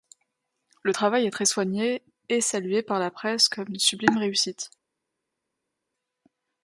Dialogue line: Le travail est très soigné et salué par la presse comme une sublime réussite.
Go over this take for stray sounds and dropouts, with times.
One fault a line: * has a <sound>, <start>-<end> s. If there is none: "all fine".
all fine